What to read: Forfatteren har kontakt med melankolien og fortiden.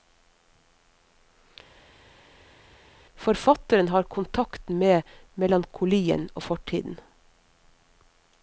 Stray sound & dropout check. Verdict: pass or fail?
pass